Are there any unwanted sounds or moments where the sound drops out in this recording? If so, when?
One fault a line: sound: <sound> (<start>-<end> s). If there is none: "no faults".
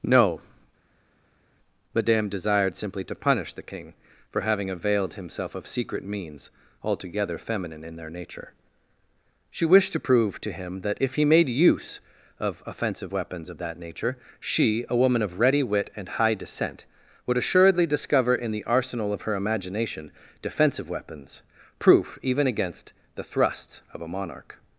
no faults